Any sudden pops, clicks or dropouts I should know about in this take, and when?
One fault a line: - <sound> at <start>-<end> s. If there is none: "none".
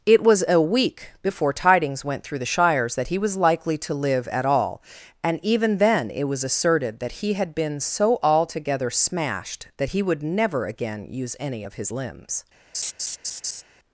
- laugh at 12.7-13.6 s